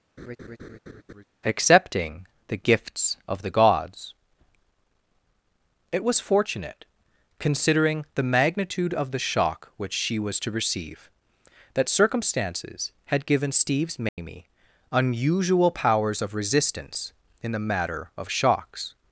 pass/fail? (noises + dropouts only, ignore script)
fail